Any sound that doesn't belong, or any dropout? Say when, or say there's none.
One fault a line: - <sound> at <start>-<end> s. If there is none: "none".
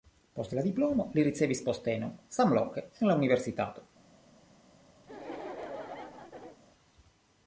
- laugh at 5.0-6.6 s